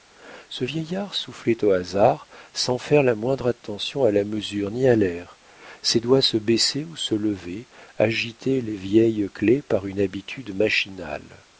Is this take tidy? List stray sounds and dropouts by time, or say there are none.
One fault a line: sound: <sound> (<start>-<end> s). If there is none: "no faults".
no faults